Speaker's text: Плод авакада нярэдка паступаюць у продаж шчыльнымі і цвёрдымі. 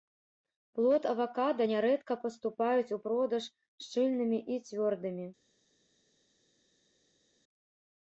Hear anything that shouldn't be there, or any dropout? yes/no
no